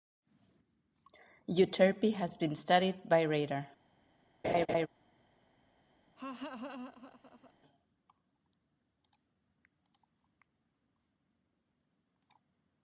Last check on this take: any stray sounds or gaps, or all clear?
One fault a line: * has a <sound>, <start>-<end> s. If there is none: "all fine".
* has a laugh, 4.4-4.9 s
* has a laugh, 6.2-7.5 s